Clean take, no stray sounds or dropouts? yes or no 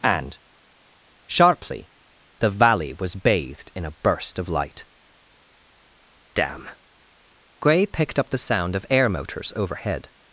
yes